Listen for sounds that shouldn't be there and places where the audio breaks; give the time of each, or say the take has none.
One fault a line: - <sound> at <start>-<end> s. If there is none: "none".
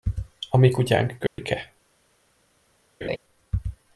- dropout at 1.3-1.4 s
- laugh at 3.0-3.2 s